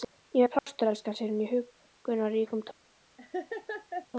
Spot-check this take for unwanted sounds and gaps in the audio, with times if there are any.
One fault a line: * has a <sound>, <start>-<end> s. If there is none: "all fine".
* has a dropout, 0.6-0.7 s
* has a laugh, 3.2-4.1 s